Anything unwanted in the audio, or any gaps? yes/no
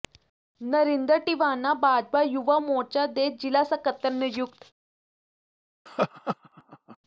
yes